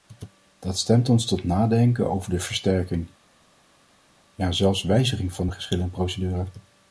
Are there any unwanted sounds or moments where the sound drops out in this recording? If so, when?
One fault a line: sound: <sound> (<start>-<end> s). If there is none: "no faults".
no faults